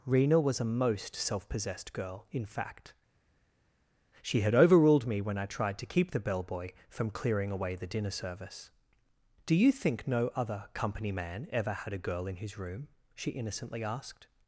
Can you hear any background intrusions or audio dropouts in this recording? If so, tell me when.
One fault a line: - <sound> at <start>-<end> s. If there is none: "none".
none